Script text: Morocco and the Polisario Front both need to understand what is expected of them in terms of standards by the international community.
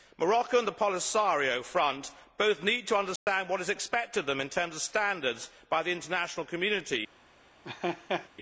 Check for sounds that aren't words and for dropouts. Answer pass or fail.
fail